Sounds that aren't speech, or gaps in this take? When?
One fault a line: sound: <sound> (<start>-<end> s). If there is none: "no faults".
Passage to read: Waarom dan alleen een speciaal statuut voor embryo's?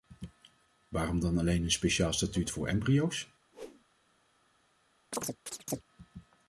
sound: whoosh (3.5-3.9 s)
sound: chirp (5.1-5.8 s)